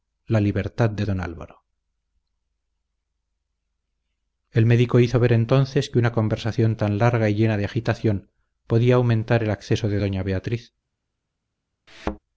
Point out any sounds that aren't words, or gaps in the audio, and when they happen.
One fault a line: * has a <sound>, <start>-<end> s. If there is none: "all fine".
* has a thud, 11.9-12.2 s